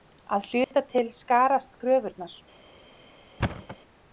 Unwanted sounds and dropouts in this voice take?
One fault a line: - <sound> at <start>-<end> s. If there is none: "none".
- dropout at 0.6-0.7 s
- thud at 3.4-3.8 s